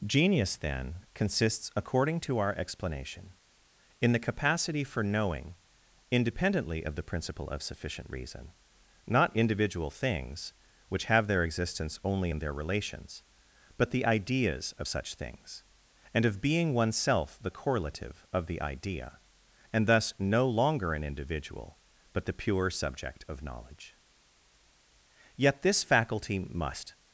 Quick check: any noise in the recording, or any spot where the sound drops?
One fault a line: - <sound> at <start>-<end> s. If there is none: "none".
none